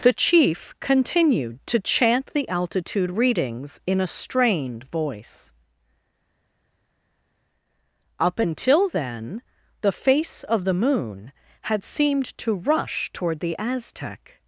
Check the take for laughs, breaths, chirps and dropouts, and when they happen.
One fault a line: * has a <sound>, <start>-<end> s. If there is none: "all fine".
all fine